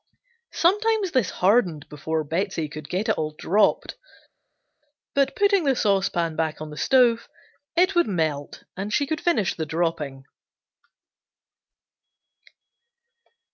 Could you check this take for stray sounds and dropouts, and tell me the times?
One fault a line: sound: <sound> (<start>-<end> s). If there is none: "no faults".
no faults